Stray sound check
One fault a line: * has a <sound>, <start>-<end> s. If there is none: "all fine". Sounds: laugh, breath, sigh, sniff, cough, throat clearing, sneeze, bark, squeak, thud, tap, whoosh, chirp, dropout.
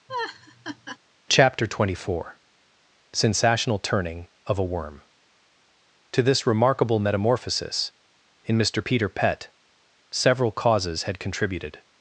* has a laugh, 0.1-1.0 s